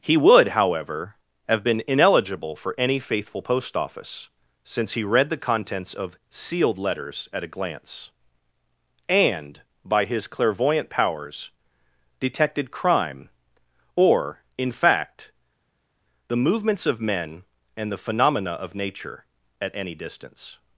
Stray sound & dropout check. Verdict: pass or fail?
pass